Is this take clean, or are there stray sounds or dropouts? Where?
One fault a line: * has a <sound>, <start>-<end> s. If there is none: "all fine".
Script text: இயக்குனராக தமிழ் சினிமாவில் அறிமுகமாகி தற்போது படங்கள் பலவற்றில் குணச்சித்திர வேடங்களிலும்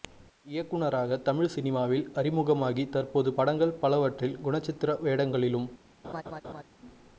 * has a laugh, 6.0-6.6 s